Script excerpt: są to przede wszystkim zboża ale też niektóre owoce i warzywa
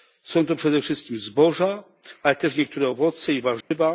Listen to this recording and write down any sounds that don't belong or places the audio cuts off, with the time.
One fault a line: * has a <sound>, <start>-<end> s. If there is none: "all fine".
* has a dropout, 3.6-3.7 s